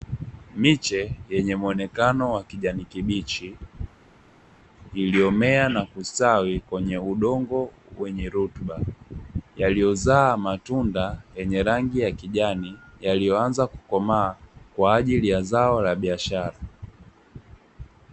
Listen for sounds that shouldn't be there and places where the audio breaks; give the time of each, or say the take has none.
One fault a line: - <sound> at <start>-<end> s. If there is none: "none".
none